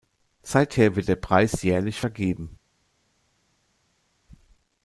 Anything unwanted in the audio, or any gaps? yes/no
no